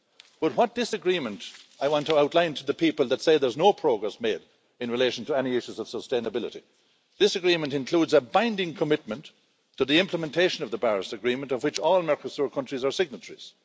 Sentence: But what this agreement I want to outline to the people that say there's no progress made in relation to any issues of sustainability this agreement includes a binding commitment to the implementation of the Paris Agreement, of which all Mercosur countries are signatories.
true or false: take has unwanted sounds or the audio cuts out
false